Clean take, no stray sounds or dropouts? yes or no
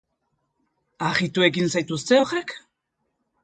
yes